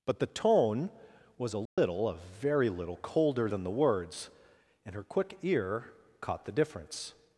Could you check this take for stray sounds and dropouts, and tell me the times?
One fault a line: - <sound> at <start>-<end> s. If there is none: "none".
- dropout at 1.7-1.8 s